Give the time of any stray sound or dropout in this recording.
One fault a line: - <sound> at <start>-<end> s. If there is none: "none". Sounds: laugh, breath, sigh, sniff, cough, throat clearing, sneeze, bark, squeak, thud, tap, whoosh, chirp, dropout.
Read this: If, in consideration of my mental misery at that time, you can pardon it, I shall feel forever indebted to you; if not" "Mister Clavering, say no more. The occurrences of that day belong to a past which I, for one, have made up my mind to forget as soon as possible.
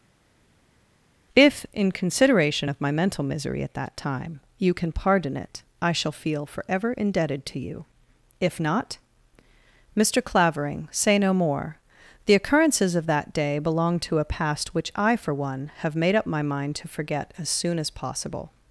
none